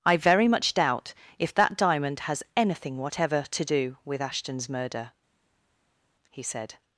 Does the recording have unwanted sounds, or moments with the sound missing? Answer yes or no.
no